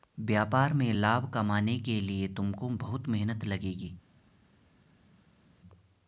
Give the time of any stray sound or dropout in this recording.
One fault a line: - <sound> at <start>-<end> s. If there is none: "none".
none